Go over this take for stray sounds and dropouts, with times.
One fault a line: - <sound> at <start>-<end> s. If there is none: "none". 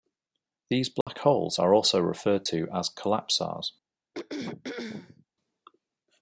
- dropout at 1.0-1.1 s
- throat clearing at 4.1-5.3 s